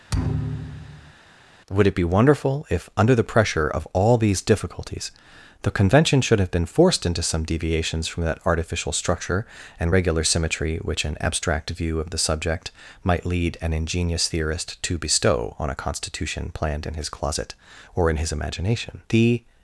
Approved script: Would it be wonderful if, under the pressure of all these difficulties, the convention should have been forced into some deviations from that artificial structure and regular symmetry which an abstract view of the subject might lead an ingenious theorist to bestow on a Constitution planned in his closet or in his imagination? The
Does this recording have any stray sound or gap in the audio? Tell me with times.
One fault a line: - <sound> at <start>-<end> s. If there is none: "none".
- thud at 0.1-1.1 s